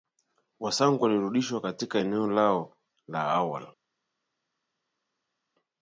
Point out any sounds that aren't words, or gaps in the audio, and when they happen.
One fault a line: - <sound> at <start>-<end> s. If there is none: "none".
none